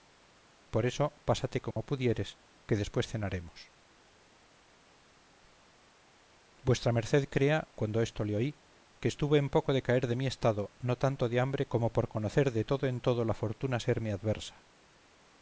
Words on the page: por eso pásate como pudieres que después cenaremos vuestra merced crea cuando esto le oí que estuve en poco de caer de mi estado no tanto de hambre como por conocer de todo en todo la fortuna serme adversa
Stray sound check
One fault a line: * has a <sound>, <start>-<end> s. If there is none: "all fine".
* has a dropout, 1.7-1.8 s